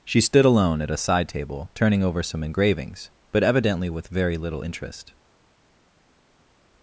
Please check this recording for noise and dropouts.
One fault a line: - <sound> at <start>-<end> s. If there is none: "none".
none